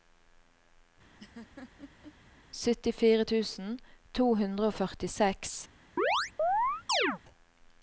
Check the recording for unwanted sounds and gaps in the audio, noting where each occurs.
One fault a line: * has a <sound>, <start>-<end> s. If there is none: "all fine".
* has a laugh, 1.2-2.2 s
* has a chirp, 6.0-7.2 s